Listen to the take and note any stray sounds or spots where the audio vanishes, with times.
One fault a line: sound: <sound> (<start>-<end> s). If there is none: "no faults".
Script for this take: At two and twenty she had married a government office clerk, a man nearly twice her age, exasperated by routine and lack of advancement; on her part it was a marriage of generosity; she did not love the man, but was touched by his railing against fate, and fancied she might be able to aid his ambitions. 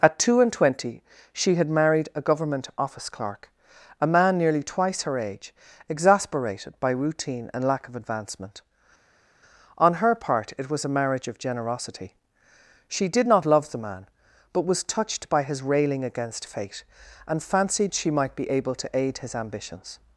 no faults